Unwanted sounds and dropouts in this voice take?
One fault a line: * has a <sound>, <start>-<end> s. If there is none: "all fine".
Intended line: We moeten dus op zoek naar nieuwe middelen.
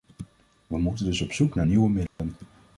* has a dropout, 2.1-2.2 s